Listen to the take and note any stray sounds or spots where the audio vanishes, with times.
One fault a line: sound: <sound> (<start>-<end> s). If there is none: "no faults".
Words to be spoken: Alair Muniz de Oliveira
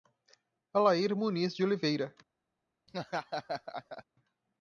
sound: laugh (2.9-4.0 s)